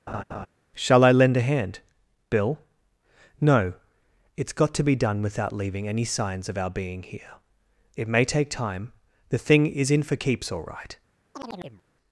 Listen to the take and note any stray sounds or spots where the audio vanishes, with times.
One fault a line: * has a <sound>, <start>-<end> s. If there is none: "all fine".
* has a laugh, 0.1-0.5 s
* has a chirp, 11.3-11.8 s